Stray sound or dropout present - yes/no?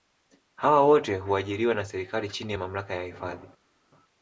no